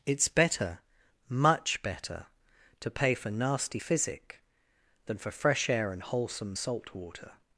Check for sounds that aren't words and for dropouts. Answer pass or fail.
pass